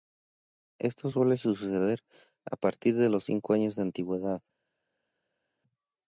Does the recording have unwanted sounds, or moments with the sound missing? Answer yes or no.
no